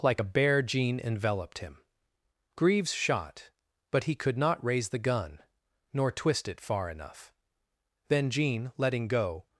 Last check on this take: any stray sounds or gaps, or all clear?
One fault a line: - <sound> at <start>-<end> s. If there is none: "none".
none